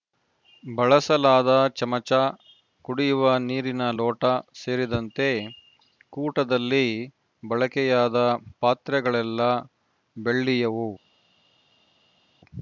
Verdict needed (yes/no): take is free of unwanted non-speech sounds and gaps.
yes